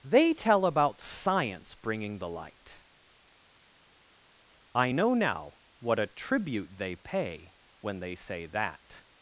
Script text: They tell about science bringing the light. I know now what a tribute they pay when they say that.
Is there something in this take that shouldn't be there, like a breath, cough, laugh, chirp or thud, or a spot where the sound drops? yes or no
no